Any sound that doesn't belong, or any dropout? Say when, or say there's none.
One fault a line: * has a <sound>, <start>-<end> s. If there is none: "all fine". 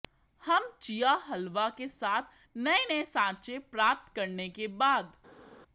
all fine